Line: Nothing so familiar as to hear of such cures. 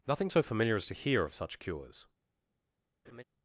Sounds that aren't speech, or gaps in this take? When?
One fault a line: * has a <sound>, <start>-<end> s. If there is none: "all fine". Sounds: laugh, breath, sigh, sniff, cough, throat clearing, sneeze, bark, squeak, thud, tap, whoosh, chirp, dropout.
* has a laugh, 3.0-3.2 s